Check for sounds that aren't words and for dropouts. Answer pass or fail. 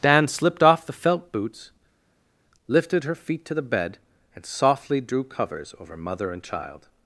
pass